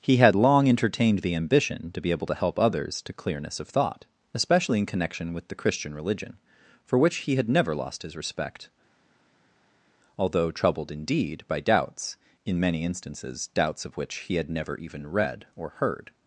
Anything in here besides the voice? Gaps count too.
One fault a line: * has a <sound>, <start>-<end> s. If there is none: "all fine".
all fine